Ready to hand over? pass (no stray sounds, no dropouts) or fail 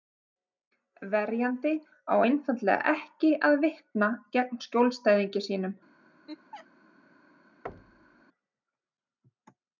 fail